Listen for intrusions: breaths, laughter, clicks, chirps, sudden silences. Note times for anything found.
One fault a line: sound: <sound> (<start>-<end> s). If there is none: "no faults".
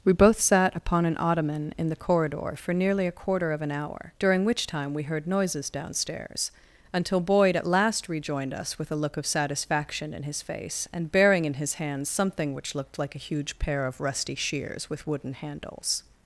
no faults